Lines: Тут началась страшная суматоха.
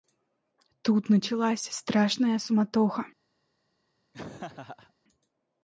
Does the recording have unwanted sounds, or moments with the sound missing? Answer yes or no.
yes